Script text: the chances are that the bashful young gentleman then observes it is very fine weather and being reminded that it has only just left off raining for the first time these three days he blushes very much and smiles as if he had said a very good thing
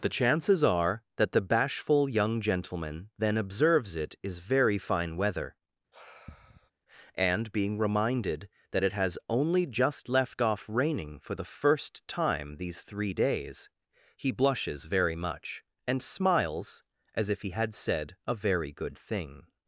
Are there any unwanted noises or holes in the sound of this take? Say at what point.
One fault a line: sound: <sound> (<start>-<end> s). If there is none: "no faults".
sound: sigh (5.9-6.7 s)